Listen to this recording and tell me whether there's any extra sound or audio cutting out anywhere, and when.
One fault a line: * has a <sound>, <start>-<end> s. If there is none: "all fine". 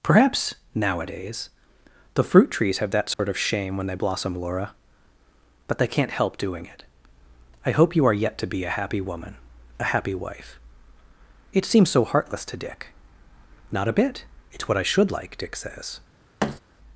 * has a dropout, 3.1-3.2 s
* has a thud, 16.4-16.6 s